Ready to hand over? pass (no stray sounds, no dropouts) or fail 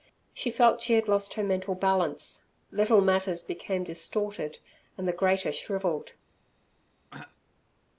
fail